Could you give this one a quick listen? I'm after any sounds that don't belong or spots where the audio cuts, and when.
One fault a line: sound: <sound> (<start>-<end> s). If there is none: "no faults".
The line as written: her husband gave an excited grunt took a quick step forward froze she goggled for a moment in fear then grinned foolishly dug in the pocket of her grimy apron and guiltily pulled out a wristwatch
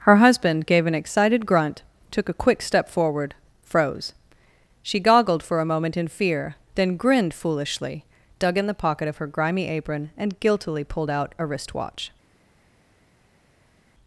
no faults